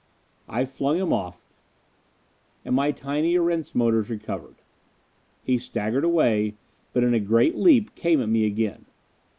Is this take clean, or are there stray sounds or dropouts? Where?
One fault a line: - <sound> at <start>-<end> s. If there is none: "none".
none